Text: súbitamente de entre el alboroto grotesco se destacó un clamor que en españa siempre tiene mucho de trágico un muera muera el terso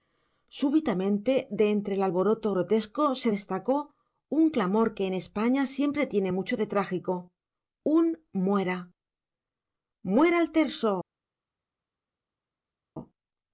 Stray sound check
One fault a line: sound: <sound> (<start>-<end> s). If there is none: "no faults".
no faults